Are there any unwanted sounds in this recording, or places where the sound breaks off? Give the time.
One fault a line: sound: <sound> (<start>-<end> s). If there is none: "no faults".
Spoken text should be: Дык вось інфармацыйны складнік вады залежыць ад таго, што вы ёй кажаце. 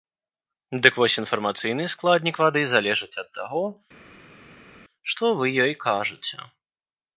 no faults